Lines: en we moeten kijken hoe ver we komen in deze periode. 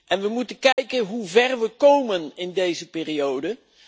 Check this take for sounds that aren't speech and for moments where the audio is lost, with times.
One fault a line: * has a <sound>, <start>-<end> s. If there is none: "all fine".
* has a dropout, 0.7-0.8 s